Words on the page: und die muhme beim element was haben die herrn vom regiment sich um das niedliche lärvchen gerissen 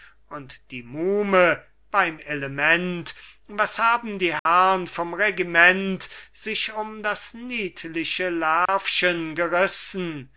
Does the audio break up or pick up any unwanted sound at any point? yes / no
yes